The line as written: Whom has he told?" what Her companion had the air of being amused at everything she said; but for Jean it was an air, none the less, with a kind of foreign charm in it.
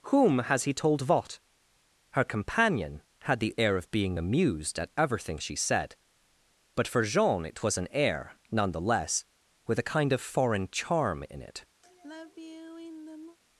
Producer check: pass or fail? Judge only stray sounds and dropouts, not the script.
fail